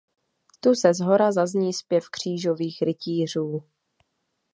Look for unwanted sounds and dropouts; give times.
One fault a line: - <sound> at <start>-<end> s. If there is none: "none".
none